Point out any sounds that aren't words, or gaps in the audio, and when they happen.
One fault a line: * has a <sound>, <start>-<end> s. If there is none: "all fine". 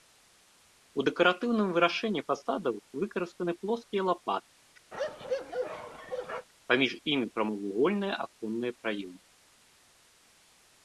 * has a bark, 4.9-6.5 s